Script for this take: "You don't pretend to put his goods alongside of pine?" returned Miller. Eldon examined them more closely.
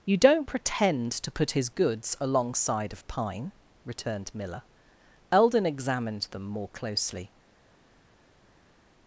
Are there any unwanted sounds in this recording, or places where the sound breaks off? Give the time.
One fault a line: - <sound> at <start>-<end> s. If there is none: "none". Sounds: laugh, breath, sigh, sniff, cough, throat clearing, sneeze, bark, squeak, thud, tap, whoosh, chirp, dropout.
none